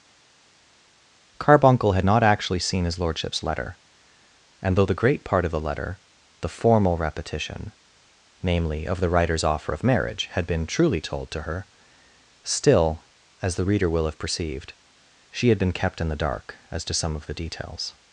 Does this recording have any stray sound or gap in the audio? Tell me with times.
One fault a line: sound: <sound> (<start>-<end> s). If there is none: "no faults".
no faults